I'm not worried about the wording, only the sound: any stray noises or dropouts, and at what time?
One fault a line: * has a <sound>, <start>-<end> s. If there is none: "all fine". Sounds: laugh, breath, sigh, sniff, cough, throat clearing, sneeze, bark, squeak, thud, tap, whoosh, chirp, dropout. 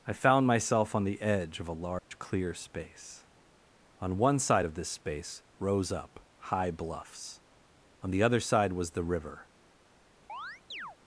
* has a dropout, 2.0-2.1 s
* has a chirp, 10.3-11.0 s